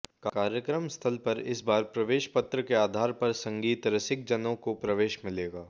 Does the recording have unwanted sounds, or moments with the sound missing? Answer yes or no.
no